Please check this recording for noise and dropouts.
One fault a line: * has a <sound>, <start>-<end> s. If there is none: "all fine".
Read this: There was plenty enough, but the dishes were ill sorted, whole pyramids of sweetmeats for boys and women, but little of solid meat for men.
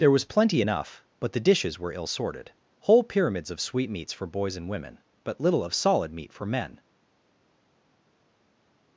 all fine